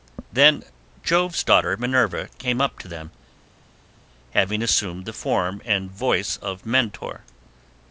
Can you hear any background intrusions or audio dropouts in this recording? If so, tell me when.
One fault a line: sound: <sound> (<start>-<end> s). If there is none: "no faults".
no faults